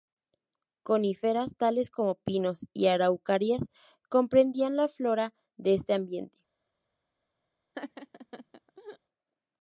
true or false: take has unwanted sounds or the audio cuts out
true